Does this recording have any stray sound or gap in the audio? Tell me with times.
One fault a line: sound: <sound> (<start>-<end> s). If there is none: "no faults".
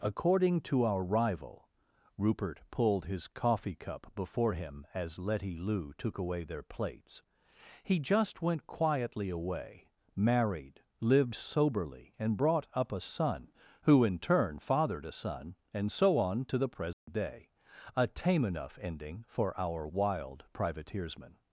sound: dropout (16.9-17.1 s)